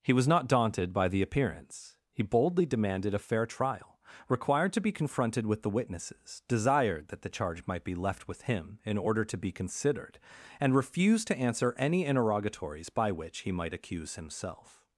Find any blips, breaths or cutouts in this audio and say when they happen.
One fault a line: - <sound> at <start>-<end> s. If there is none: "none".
none